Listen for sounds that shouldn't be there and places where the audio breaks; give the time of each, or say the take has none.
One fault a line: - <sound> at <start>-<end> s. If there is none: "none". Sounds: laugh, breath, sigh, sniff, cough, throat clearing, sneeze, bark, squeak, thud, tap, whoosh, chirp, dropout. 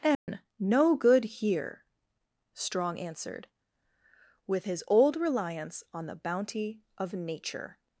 - dropout at 0.1-0.3 s